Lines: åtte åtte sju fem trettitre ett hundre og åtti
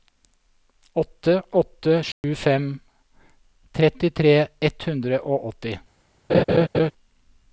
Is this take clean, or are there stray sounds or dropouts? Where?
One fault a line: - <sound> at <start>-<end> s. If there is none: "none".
- dropout at 2.1-2.2 s
- laugh at 6.3-6.9 s